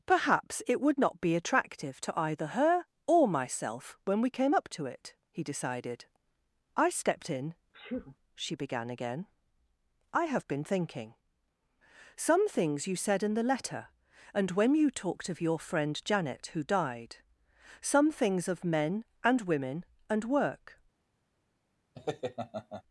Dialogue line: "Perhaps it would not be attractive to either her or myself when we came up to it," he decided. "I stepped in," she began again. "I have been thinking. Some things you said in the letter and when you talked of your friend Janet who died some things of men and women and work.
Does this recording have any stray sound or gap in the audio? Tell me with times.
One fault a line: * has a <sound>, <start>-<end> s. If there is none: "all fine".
* has a sneeze, 7.7-8.2 s
* has a laugh, 22.0-22.8 s